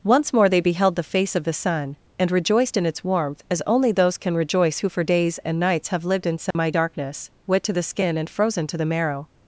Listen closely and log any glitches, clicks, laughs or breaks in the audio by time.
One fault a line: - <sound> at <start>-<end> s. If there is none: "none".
- dropout at 6.5-6.5 s